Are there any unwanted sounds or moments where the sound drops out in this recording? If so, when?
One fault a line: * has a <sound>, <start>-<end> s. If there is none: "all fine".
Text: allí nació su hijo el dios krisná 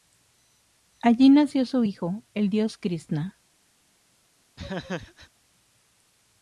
* has a laugh, 4.6-5.3 s